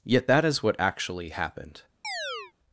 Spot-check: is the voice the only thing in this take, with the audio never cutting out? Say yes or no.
no